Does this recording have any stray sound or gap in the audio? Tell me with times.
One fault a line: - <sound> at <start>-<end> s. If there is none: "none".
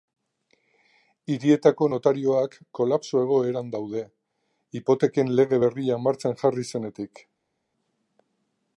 none